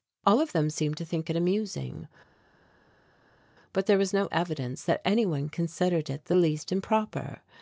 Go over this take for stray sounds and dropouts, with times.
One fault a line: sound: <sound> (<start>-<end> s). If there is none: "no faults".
no faults